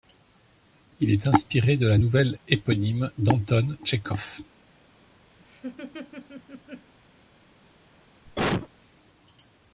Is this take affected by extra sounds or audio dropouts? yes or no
yes